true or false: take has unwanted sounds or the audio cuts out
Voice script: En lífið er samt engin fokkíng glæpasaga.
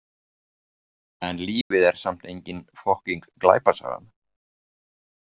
true